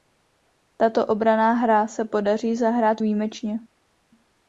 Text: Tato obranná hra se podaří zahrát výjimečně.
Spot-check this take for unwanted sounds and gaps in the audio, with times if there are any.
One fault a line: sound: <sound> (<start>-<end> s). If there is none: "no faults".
no faults